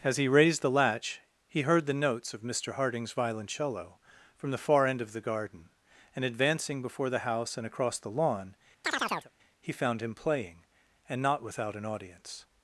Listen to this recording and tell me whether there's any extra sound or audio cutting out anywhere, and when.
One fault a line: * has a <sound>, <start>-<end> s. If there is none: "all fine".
* has a chirp, 8.8-9.3 s